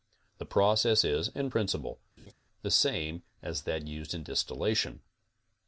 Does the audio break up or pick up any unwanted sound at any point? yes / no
yes